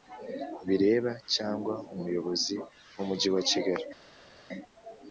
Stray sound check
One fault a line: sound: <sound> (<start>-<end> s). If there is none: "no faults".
no faults